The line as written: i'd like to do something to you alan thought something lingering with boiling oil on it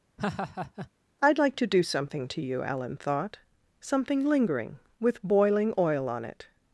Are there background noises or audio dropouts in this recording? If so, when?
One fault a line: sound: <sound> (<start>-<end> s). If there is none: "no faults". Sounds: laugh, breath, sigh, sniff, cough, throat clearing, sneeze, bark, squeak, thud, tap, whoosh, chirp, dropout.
sound: laugh (0.2-0.9 s)